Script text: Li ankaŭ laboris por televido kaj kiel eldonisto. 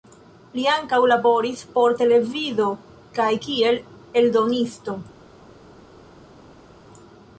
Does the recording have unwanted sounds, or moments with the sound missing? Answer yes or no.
no